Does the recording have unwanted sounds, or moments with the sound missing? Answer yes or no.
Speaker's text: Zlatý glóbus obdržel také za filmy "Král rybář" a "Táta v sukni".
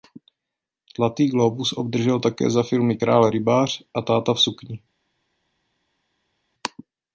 no